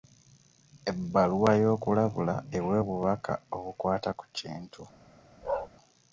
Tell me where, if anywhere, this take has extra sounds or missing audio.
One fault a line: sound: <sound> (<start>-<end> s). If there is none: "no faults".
sound: bark (5.4-5.7 s)